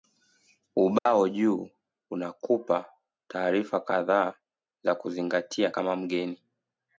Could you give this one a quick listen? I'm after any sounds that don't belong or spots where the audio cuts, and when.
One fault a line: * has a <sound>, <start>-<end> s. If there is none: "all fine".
* has a dropout, 1.0-1.1 s